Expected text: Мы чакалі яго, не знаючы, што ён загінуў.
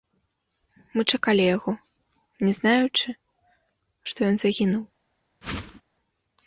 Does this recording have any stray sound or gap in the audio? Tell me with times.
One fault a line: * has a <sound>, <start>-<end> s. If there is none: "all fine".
* has a whoosh, 5.4-5.8 s